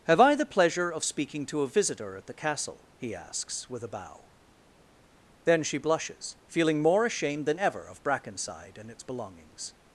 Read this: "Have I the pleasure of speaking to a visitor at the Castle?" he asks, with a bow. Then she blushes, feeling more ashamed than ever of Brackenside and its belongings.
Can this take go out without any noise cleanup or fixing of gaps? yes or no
yes